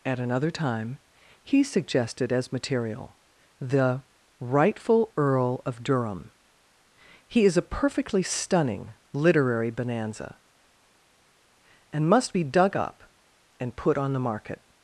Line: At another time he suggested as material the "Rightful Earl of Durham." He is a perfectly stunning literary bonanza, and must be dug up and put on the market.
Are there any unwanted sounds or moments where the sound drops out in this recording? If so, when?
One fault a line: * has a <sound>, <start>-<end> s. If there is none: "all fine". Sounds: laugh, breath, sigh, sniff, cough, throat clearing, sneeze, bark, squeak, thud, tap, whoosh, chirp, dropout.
all fine